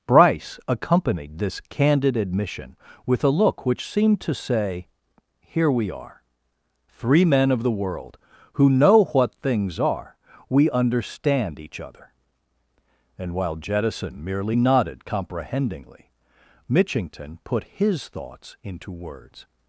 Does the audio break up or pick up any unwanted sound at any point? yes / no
no